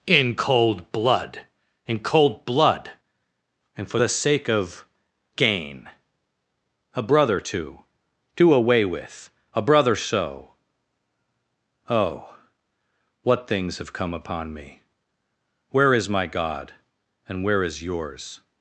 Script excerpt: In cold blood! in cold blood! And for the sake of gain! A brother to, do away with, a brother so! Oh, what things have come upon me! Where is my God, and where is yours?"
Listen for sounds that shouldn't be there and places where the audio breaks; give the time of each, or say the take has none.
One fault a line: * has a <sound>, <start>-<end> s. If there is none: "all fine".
all fine